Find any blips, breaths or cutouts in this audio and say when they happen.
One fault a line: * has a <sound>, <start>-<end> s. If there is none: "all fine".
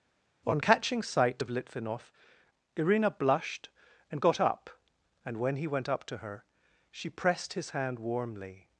all fine